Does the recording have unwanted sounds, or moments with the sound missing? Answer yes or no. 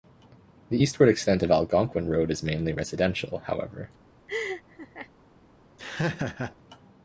yes